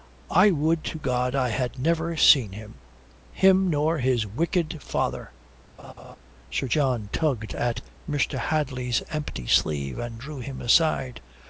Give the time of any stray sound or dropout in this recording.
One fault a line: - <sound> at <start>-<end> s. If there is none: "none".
- laugh at 5.8-6.2 s